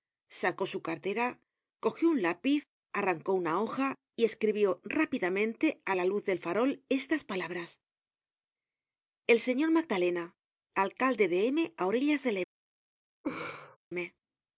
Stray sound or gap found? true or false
true